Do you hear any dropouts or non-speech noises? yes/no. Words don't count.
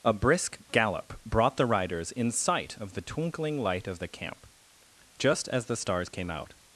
no